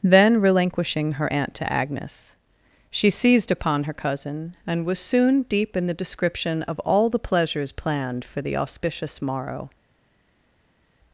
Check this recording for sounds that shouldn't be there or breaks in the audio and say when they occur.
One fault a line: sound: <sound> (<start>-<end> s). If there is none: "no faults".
no faults